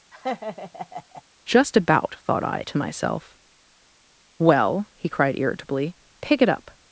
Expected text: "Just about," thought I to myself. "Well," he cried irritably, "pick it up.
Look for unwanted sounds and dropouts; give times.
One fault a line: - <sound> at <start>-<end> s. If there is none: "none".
- laugh at 0.1-1.2 s